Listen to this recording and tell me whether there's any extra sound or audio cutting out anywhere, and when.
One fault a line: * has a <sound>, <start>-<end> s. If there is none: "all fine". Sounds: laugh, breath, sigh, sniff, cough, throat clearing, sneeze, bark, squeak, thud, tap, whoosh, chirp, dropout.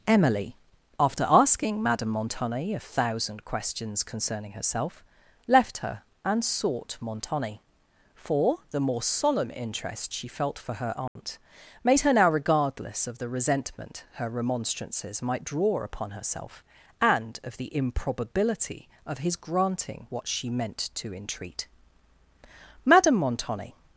* has a dropout, 11.1-11.2 s